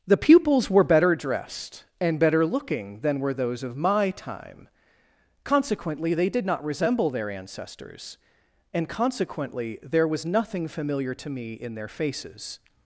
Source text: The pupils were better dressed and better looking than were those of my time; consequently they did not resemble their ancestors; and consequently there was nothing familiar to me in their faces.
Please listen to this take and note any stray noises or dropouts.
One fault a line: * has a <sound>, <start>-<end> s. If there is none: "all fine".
all fine